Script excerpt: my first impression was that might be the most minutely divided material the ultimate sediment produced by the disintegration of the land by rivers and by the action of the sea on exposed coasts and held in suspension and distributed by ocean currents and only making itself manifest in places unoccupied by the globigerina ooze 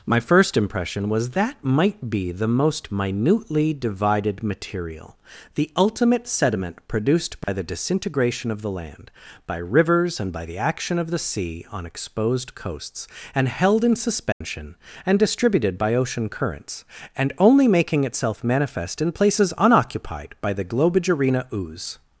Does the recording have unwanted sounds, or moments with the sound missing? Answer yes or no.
yes